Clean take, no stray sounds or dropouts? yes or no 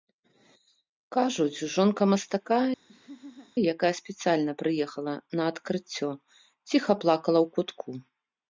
no